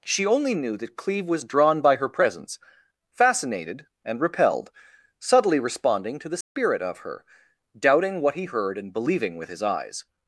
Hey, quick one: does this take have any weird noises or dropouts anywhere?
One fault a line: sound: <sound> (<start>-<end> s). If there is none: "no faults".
sound: dropout (6.4-6.6 s)